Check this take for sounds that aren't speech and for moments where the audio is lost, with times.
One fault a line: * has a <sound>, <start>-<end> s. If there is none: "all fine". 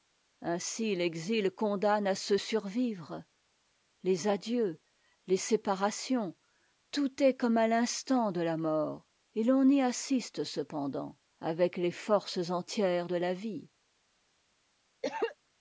* has a cough, 15.0-15.4 s